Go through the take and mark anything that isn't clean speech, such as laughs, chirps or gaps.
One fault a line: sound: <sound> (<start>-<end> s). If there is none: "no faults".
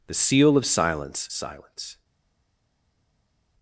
no faults